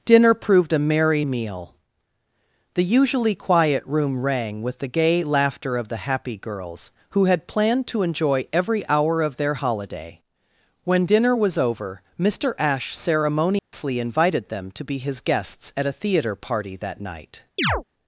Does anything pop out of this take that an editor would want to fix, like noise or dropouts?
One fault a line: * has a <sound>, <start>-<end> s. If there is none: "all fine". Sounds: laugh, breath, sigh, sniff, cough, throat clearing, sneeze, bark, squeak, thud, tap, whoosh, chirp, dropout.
* has a dropout, 13.6-13.7 s
* has a chirp, 17.6-17.8 s